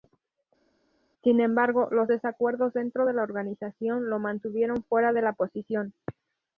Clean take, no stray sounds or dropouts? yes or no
yes